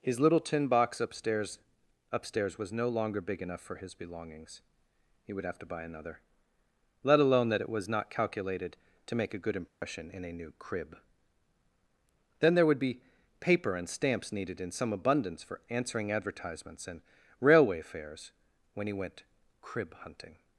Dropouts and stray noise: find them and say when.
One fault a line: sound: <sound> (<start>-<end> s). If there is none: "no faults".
sound: dropout (9.7-9.8 s)